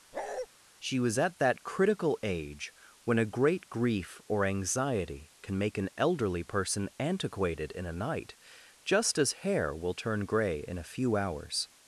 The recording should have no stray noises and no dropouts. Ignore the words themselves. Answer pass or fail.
fail